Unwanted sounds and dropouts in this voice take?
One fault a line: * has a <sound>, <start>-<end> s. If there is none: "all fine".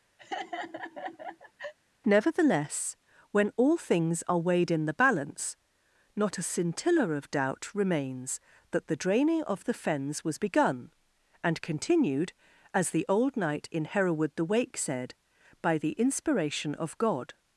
* has a laugh, 0.2-1.7 s